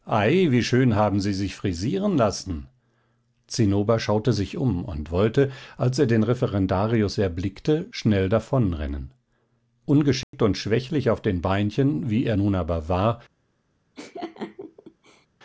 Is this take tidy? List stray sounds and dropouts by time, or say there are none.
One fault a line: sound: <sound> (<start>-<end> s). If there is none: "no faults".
sound: dropout (10.2-10.3 s)
sound: laugh (14.0-15.3 s)